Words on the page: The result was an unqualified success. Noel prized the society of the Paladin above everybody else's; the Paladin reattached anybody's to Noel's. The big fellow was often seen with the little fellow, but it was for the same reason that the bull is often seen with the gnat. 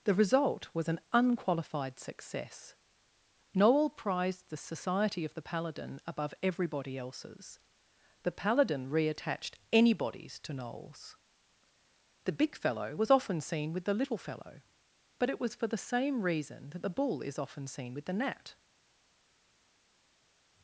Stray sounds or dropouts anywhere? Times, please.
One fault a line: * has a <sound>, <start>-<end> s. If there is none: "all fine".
all fine